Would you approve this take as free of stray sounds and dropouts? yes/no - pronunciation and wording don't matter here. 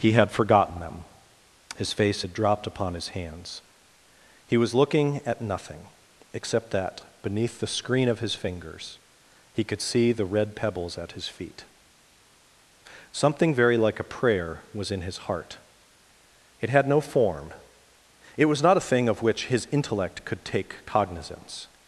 yes